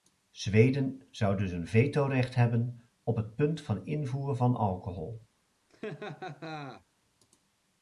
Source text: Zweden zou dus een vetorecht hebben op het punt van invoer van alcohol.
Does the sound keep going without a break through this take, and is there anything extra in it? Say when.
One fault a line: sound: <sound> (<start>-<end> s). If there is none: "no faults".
sound: laugh (5.7-6.8 s)